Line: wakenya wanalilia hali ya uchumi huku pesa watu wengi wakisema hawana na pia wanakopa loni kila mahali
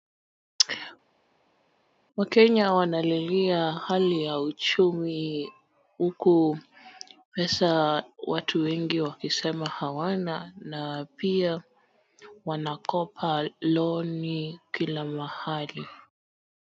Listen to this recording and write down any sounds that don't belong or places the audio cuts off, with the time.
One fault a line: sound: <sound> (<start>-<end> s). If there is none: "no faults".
no faults